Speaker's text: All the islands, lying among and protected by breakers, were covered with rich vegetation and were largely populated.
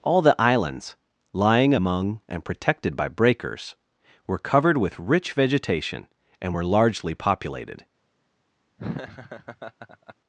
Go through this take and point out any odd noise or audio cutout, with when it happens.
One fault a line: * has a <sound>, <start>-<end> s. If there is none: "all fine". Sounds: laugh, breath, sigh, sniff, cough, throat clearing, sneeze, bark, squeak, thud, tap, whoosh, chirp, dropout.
* has a laugh, 8.8-10.1 s